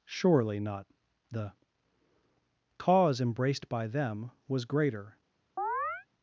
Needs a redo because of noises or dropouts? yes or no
yes